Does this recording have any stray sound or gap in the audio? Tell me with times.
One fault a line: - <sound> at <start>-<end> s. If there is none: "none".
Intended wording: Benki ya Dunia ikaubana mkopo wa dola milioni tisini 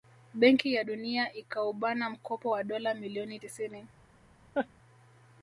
- laugh at 4.5-4.7 s